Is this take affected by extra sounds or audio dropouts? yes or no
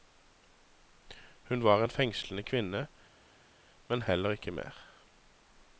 no